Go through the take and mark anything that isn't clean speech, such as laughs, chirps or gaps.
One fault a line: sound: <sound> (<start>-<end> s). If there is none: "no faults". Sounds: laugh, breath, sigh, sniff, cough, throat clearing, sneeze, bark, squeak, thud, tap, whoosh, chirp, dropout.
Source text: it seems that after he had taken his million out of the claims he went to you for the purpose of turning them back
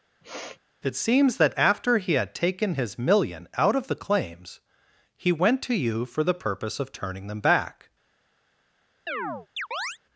sound: sniff (0.2-0.6 s)
sound: chirp (9.1-10.0 s)